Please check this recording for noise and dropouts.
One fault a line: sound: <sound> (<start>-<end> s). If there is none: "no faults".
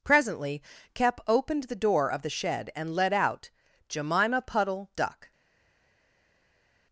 no faults